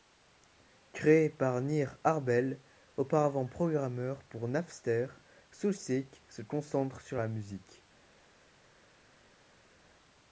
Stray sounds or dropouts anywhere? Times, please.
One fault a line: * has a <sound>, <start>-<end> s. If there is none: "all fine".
all fine